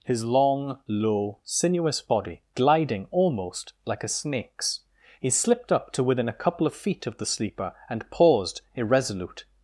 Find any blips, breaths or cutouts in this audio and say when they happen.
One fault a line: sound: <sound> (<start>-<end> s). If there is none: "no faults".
no faults